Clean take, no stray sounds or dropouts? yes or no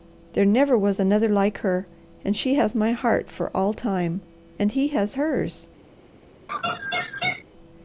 no